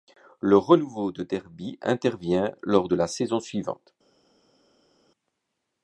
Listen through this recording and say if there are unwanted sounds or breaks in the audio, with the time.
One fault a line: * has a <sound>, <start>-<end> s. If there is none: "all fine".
all fine